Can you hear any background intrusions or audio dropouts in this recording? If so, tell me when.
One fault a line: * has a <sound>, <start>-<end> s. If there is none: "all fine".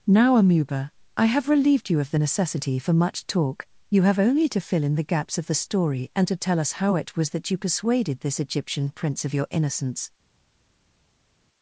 all fine